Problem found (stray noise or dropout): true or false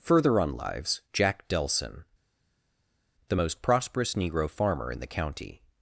false